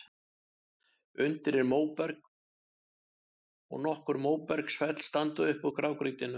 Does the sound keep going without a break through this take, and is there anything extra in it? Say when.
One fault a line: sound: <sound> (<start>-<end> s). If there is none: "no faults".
no faults